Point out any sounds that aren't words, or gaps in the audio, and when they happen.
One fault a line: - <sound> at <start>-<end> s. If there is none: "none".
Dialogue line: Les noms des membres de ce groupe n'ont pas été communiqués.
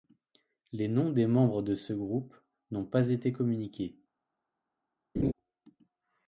- laugh at 5.2-5.3 s